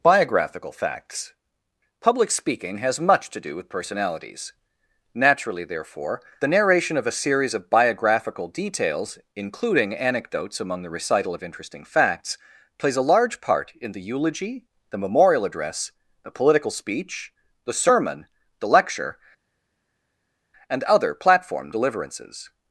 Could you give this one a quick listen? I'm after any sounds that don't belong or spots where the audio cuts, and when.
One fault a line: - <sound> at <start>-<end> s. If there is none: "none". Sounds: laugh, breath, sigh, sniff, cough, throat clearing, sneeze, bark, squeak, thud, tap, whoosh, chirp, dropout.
none